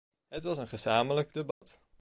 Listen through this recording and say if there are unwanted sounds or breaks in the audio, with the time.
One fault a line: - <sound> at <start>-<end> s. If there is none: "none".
- dropout at 1.5-1.6 s